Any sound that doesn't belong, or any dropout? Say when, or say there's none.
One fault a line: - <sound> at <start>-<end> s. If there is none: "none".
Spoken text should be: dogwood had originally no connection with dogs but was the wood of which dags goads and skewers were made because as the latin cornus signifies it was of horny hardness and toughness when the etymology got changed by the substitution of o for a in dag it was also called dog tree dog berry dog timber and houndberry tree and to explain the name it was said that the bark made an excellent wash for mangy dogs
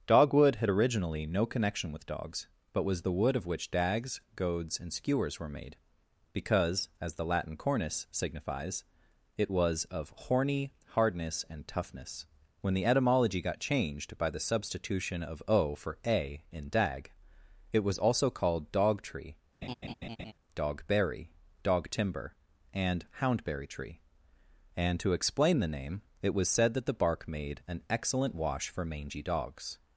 - laugh at 19.6-20.3 s